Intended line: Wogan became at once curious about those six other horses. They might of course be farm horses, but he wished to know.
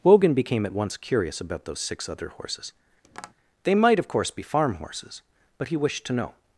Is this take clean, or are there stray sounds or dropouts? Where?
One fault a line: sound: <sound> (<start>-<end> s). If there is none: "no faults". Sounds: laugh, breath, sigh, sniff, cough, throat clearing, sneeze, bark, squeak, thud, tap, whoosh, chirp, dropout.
sound: tap (3.0-3.3 s)